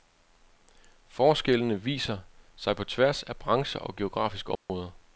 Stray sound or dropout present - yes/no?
yes